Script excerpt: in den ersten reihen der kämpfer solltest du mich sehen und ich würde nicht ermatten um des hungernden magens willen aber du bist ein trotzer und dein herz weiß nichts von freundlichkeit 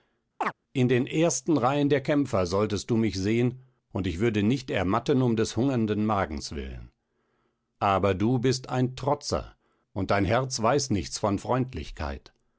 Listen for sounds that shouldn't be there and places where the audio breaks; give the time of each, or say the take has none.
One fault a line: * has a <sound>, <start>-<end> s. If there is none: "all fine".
* has a chirp, 0.4-0.5 s